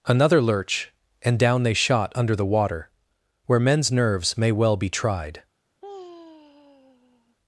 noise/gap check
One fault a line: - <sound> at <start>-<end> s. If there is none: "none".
- sigh at 5.8-7.4 s